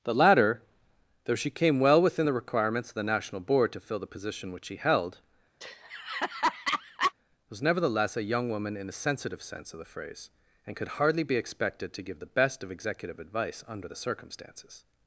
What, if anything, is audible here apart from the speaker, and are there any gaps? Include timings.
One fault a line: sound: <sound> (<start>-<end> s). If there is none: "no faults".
sound: laugh (5.6-7.1 s)